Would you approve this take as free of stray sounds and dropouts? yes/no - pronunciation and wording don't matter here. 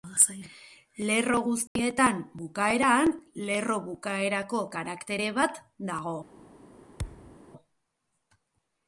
no